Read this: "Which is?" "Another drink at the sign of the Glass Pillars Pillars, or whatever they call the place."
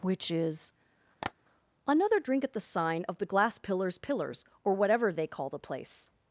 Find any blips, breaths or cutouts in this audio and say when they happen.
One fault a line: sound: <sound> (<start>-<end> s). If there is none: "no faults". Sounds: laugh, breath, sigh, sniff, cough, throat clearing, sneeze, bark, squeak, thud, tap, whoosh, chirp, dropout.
sound: tap (1.2-1.3 s)